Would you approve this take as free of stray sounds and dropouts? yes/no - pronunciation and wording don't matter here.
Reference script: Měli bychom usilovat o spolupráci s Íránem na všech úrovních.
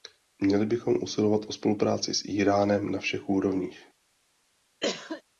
no